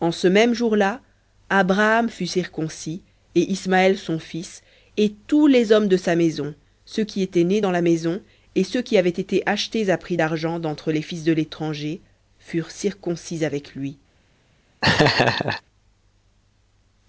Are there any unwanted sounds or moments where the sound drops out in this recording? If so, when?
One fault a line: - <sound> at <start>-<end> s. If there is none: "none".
- laugh at 14.8-15.6 s